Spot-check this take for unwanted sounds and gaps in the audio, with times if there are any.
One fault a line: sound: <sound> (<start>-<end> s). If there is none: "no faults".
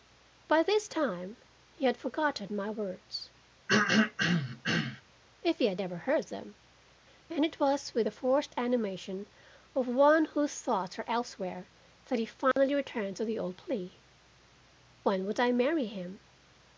sound: throat clearing (3.7-5.0 s)
sound: dropout (12.5-12.6 s)